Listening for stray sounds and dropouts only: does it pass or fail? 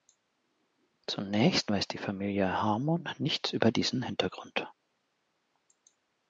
pass